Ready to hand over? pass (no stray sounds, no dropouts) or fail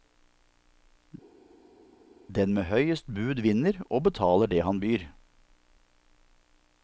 pass